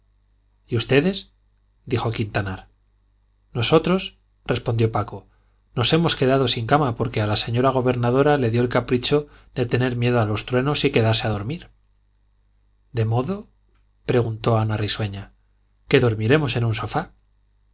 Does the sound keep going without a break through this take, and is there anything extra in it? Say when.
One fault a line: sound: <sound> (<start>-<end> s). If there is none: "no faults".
no faults